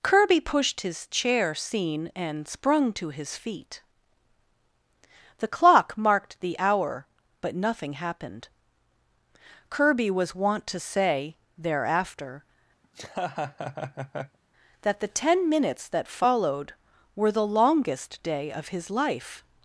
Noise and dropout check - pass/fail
fail